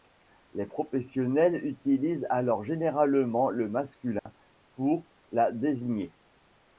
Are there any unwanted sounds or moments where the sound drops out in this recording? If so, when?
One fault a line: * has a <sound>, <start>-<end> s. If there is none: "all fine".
* has a dropout, 4.2-4.3 s